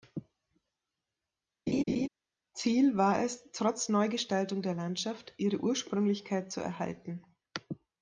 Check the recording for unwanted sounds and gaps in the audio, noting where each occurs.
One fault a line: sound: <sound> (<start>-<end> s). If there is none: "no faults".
sound: laugh (1.7-2.1 s)